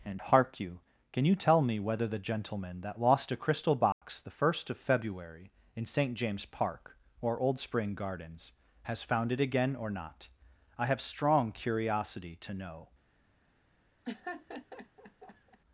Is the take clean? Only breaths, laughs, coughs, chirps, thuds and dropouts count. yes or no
no